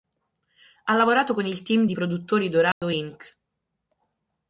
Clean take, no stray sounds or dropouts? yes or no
no